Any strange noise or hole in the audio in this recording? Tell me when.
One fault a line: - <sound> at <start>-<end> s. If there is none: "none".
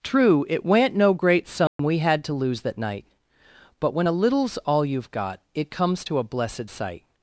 - dropout at 1.7-1.8 s